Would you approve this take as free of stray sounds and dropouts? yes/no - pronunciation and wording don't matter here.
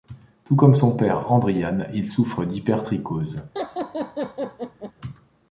no